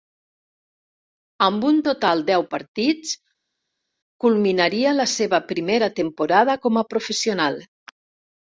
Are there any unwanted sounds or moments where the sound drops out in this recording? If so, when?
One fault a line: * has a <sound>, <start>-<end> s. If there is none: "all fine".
all fine